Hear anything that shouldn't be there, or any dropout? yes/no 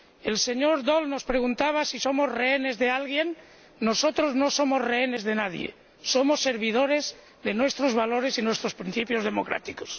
no